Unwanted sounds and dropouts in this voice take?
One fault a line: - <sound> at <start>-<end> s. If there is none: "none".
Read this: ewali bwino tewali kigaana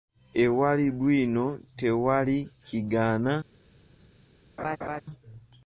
- laugh at 4.6-5.0 s